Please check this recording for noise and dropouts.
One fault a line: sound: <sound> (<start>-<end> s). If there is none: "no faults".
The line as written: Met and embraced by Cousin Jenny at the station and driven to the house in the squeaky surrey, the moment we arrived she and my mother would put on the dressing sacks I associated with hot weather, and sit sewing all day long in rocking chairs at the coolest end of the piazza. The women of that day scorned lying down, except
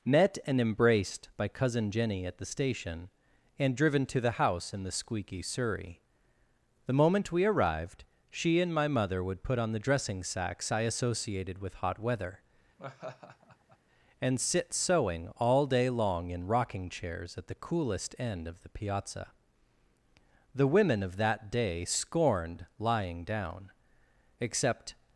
sound: laugh (12.8-13.8 s)